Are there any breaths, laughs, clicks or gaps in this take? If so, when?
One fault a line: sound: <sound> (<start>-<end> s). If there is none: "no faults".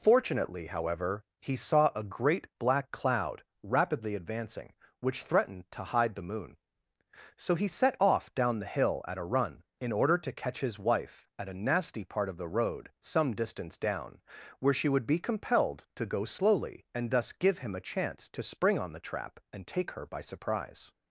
no faults